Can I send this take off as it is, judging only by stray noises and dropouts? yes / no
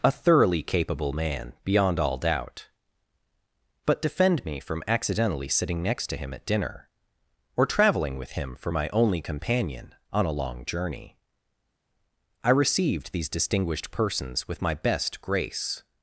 yes